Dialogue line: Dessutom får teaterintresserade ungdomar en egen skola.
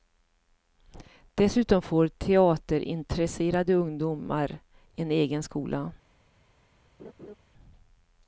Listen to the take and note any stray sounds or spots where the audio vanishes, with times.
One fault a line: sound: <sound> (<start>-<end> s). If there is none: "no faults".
sound: laugh (7.0-7.4 s)